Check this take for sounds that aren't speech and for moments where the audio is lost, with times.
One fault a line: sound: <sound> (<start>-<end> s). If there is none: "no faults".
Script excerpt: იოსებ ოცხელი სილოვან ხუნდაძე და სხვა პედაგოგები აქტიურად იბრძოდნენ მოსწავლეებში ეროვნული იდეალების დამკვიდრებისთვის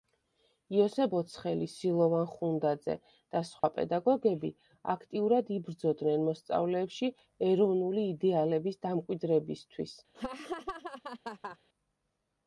sound: dropout (3.6-3.6 s)
sound: laugh (10.1-11.6 s)